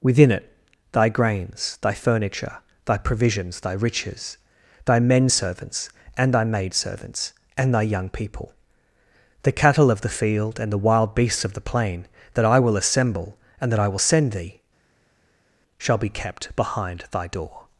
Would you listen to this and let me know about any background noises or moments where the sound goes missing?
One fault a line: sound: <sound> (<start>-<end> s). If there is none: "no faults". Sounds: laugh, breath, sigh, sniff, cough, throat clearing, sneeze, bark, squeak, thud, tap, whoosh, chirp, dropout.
no faults